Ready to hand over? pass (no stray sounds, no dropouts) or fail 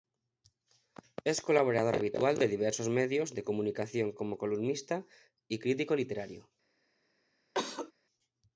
fail